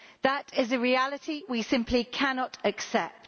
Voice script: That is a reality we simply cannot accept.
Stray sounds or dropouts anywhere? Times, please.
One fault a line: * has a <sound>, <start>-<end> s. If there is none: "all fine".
all fine